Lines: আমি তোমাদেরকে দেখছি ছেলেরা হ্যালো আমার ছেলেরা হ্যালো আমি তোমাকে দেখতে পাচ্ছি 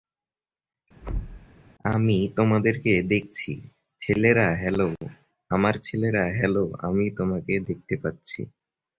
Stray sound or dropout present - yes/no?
yes